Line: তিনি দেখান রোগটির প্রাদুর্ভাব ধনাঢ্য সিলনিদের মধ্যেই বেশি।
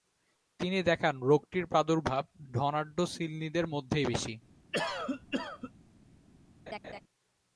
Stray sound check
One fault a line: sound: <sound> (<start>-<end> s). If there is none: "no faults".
sound: cough (4.7-5.7 s)
sound: laugh (6.7-7.0 s)